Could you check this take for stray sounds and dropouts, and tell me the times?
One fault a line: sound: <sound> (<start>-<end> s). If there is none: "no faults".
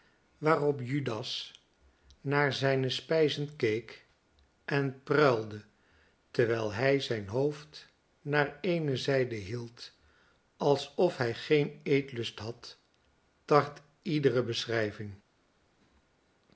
no faults